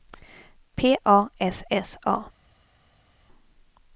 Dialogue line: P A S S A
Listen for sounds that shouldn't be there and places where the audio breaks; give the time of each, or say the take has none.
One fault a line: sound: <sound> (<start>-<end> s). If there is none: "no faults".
no faults